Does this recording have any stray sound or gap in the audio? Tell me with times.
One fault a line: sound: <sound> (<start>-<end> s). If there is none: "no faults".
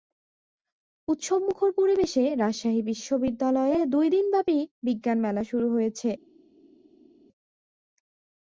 no faults